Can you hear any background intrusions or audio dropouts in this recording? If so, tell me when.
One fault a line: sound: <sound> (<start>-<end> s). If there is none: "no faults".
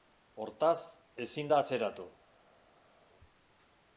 no faults